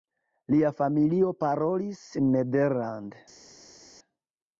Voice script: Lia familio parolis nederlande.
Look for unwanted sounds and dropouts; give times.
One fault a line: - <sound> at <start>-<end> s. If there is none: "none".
none